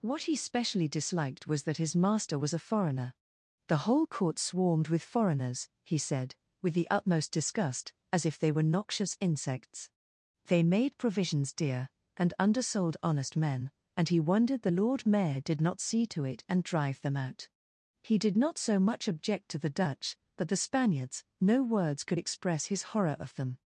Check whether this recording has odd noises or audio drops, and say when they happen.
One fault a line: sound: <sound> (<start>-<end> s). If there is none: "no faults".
no faults